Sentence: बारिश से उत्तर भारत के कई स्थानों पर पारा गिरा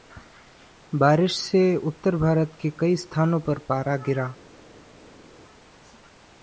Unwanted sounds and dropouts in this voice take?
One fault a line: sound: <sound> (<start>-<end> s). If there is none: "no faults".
no faults